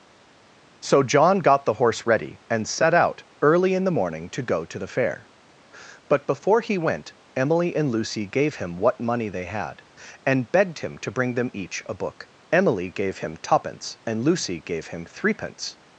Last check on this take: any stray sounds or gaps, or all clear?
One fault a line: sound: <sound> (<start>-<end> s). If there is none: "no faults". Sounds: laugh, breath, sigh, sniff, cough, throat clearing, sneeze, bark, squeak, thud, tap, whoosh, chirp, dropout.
no faults